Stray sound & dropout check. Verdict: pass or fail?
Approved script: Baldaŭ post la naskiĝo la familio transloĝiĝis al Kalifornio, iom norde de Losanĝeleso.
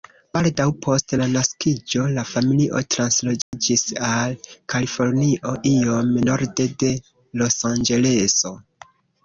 fail